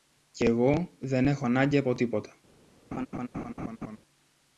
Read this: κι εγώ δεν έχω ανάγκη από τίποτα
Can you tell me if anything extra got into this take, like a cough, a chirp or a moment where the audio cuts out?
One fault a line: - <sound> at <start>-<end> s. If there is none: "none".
- laugh at 2.9-4.0 s